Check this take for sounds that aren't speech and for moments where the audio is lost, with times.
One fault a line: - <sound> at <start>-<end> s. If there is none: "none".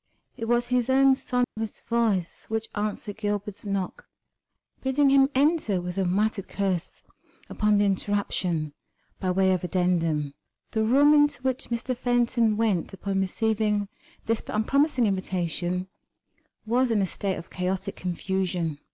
- dropout at 1.4-1.6 s